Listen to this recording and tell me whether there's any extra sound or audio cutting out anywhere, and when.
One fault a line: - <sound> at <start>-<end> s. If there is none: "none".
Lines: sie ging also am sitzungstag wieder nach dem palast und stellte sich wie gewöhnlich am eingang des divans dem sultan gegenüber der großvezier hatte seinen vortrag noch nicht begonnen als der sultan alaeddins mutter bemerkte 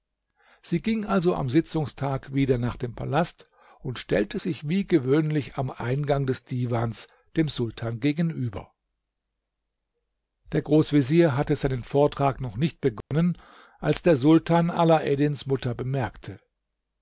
- dropout at 13.0-13.1 s